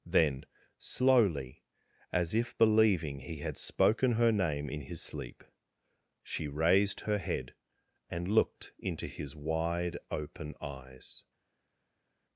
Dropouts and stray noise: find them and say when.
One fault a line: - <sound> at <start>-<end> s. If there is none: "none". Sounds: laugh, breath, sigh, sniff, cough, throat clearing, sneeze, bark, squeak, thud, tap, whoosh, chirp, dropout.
none